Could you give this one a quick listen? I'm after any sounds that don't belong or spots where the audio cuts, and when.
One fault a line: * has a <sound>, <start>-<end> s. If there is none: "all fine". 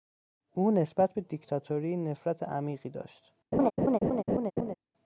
* has a laugh, 3.5-4.7 s